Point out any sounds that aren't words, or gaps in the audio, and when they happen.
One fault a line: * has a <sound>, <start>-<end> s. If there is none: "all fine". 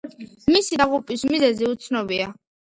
all fine